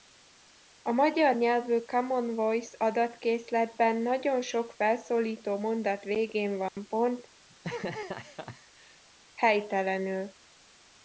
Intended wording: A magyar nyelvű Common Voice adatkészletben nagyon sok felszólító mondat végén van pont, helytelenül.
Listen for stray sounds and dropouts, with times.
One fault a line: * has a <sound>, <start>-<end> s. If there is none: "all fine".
* has a dropout, 6.7-6.8 s
* has a laugh, 7.5-9.0 s